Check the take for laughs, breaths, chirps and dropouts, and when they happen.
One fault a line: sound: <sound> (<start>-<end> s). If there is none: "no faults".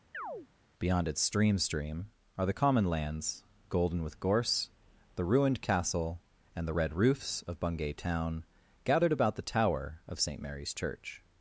sound: chirp (0.1-0.5 s)